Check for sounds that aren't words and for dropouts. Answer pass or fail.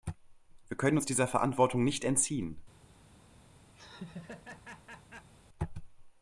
fail